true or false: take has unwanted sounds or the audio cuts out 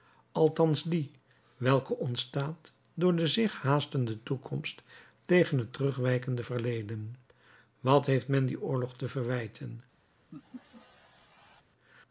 true